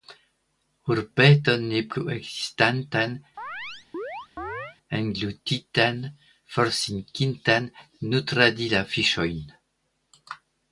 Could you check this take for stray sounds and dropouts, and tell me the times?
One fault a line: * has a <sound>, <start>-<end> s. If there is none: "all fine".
* has a chirp, 3.4-4.8 s